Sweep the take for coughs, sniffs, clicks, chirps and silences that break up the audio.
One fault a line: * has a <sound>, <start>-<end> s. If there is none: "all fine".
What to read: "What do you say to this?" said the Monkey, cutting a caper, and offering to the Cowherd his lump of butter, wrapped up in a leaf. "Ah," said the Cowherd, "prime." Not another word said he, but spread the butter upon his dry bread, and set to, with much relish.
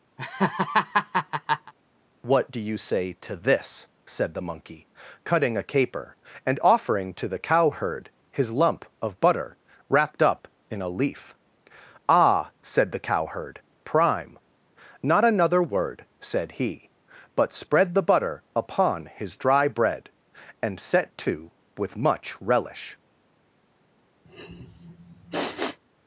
* has a laugh, 0.2-1.7 s
* has a sniff, 24.2-25.8 s